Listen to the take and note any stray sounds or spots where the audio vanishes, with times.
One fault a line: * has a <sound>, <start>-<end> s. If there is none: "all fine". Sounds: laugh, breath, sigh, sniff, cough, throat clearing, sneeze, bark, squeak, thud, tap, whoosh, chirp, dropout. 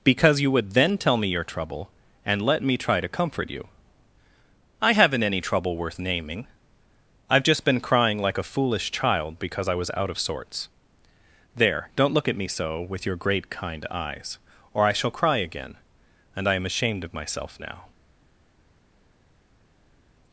all fine